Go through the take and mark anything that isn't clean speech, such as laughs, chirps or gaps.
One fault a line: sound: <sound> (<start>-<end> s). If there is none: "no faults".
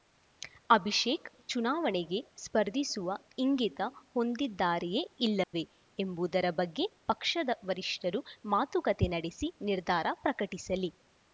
sound: dropout (5.4-5.5 s)